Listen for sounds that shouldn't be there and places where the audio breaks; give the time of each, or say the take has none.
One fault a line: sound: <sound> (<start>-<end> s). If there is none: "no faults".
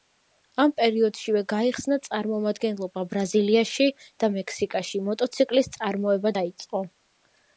no faults